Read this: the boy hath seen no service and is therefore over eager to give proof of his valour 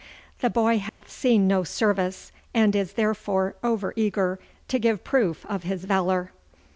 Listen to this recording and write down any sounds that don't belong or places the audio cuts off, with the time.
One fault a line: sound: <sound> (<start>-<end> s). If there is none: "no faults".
sound: dropout (0.9-1.0 s)